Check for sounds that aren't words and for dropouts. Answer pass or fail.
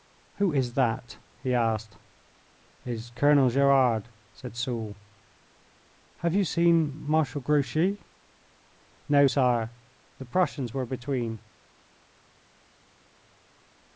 pass